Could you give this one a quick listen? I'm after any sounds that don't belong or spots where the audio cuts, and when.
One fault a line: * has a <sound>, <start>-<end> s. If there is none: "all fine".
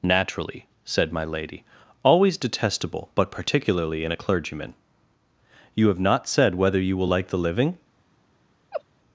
* has a laugh, 8.7-8.8 s